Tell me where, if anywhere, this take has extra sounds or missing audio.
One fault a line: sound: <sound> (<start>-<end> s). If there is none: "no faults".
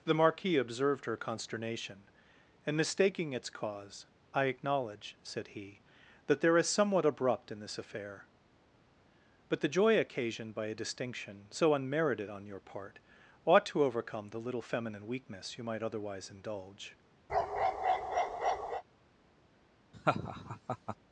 sound: bark (17.3-18.8 s)
sound: laugh (19.9-21.0 s)